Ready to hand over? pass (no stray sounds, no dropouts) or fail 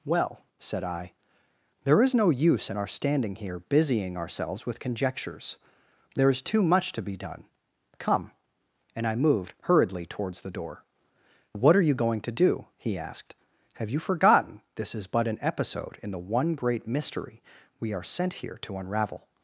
pass